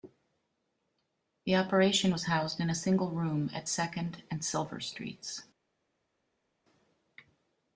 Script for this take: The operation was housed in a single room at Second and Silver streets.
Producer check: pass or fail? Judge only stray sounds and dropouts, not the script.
pass